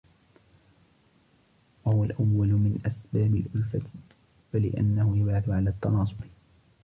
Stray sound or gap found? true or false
false